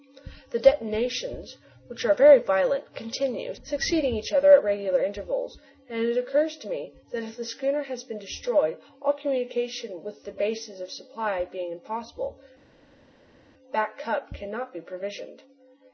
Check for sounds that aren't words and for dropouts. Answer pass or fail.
pass